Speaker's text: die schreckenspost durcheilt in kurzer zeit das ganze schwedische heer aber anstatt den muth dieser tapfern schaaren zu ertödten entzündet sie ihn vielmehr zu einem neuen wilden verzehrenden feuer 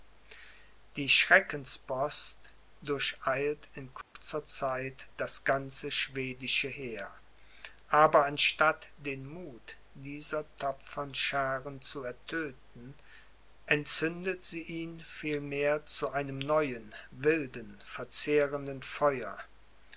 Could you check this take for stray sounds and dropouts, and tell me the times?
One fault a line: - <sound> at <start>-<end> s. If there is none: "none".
- dropout at 4.0-4.2 s